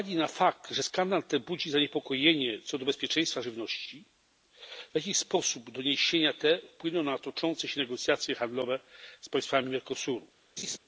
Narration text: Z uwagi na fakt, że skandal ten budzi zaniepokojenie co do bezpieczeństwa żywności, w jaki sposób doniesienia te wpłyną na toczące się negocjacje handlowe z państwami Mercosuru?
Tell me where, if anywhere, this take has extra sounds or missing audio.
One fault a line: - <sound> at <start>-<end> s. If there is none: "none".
- laugh at 10.6-10.8 s